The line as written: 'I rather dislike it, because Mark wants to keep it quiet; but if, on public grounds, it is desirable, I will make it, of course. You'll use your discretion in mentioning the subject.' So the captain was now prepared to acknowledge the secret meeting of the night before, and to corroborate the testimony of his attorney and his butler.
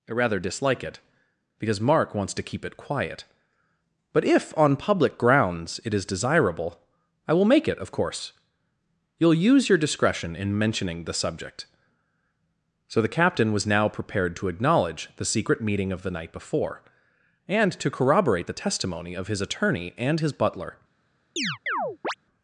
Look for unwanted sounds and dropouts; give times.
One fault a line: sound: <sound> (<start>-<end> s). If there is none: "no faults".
sound: chirp (21.4-22.1 s)